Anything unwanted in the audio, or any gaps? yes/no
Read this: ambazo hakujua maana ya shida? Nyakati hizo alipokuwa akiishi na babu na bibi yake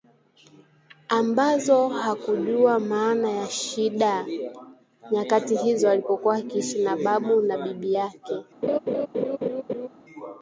yes